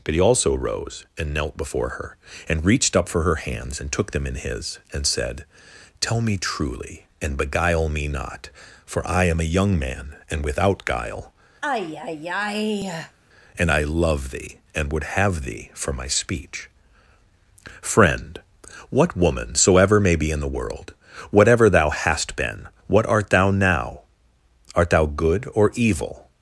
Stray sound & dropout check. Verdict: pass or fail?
fail